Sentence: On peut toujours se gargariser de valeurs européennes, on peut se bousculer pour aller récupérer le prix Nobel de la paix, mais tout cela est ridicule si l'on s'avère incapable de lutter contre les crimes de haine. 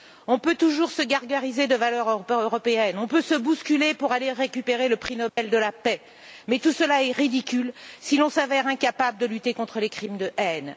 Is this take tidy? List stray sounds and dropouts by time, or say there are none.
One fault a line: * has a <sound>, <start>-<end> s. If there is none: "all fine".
* has a dropout, 5.3-5.4 s